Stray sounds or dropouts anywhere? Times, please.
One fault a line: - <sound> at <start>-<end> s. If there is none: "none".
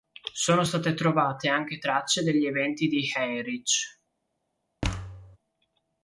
- thud at 4.8-5.4 s